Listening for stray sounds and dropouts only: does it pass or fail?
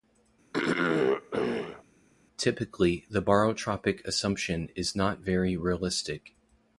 fail